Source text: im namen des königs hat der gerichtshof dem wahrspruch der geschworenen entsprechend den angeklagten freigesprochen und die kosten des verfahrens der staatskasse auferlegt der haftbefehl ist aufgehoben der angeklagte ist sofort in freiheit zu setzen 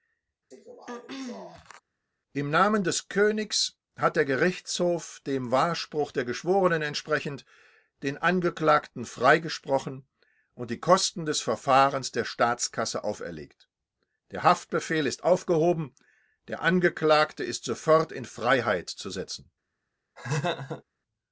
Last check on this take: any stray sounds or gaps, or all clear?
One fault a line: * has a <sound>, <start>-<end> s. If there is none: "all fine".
* has a throat clearing, 0.5-1.8 s
* has a laugh, 20.2-20.8 s